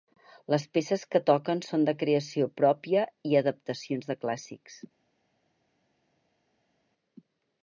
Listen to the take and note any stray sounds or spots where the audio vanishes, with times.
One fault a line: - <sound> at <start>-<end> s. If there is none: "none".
none